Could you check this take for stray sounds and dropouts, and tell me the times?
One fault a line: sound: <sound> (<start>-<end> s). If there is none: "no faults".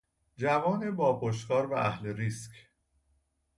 no faults